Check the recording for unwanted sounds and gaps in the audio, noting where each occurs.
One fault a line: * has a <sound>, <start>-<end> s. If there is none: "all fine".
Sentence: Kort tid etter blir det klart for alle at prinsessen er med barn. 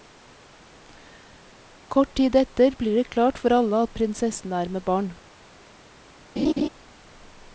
* has a laugh, 6.4-6.7 s